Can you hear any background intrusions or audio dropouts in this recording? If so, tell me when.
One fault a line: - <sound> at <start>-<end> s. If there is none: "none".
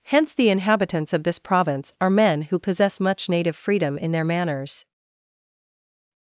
none